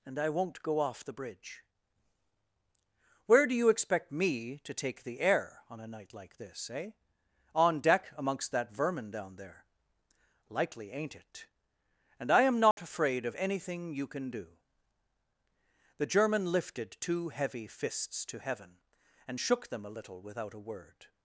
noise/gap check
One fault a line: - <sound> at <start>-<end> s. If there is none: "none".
- dropout at 12.7-12.8 s